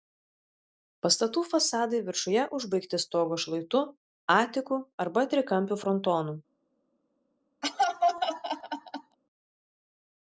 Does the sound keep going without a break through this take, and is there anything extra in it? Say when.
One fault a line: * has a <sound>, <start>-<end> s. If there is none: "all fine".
* has a laugh, 7.6-9.2 s